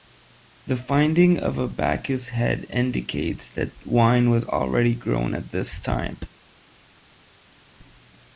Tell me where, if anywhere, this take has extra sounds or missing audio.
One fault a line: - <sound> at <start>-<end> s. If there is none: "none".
none